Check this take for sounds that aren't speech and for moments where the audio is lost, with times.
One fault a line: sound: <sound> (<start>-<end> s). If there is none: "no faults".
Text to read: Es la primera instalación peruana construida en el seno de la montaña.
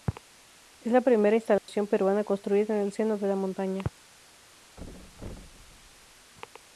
sound: dropout (1.6-1.7 s)
sound: thud (4.8-6.3 s)